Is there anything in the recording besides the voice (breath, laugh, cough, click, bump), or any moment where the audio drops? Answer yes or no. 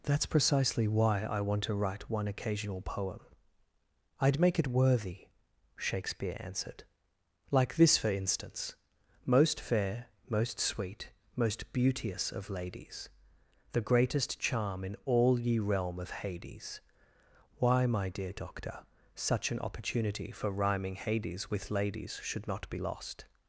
no